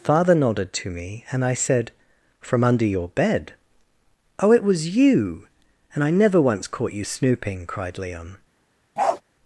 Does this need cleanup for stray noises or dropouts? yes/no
yes